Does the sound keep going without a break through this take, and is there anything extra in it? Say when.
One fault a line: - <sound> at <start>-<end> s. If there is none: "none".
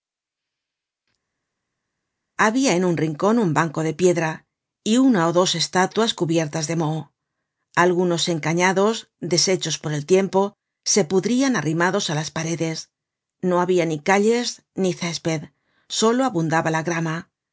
none